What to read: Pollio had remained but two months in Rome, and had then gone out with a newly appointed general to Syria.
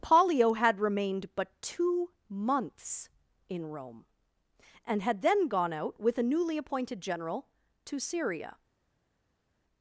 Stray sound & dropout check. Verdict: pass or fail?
pass